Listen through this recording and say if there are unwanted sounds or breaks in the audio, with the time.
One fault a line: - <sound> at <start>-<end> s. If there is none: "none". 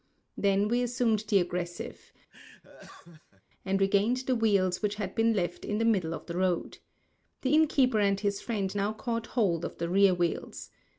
- laugh at 2.3-3.4 s